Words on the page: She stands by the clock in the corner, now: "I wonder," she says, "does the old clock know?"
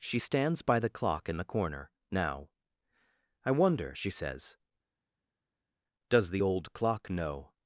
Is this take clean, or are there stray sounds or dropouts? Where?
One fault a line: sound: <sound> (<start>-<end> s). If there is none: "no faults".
no faults